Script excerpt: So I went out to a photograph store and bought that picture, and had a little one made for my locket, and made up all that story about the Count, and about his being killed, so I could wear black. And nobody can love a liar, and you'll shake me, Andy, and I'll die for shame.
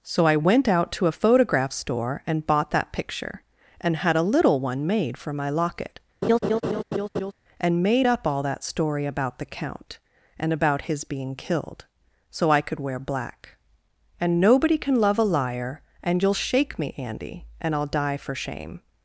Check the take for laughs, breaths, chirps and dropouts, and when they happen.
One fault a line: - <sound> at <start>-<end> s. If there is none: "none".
- laugh at 6.2-7.3 s